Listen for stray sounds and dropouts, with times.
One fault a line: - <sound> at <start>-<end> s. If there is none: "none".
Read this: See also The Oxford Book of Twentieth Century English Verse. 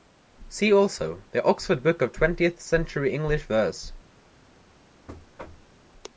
- thud at 5.1-5.8 s